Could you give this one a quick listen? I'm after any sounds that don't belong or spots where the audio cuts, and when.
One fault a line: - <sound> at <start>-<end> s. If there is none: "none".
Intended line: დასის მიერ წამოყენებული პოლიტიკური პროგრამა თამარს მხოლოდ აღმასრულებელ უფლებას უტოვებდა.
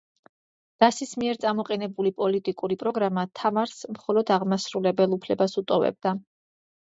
none